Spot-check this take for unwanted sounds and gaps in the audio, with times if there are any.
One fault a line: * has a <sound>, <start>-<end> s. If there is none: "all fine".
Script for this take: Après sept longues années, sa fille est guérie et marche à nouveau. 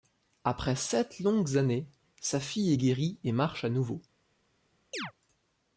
* has a chirp, 4.9-5.1 s